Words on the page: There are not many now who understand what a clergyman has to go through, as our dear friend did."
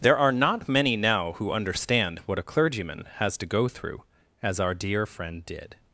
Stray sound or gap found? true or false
false